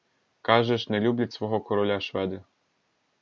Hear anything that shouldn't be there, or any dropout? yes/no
no